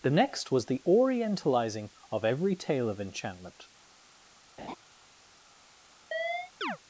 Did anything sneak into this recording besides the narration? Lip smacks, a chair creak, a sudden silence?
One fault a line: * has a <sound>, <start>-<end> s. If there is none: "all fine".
* has a laugh, 4.6-4.8 s
* has a chirp, 6.1-6.8 s